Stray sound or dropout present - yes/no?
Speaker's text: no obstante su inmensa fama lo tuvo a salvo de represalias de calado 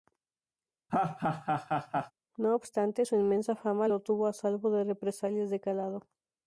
yes